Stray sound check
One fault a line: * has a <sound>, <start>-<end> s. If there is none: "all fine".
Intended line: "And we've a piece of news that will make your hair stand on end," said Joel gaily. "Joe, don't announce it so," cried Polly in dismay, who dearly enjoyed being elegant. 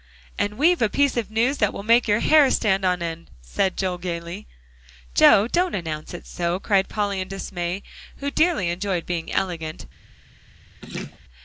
* has a laugh, 10.8-11.2 s